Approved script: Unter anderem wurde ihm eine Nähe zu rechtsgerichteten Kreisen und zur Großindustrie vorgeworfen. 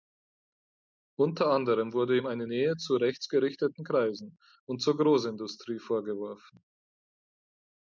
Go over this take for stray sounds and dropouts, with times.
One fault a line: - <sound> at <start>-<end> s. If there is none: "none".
none